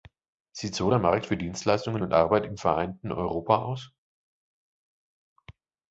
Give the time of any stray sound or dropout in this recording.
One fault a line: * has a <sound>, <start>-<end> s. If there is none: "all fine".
all fine